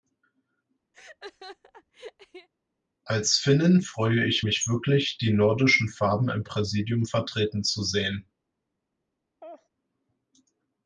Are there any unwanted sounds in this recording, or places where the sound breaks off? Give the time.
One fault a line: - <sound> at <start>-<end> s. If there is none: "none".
- laugh at 0.9-2.5 s
- laugh at 9.4-9.7 s